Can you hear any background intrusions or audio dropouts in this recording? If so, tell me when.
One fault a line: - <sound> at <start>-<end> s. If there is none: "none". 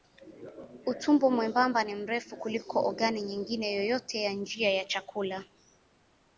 none